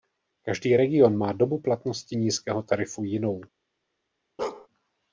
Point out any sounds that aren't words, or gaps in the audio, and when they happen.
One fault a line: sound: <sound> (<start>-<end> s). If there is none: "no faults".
sound: bark (4.4-4.7 s)